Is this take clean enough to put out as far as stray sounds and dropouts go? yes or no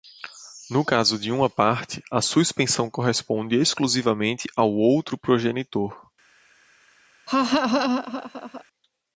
no